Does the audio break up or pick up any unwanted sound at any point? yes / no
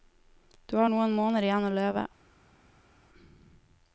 no